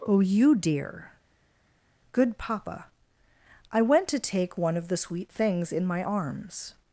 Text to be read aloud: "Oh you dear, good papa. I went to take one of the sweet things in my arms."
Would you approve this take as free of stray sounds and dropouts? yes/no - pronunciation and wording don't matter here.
yes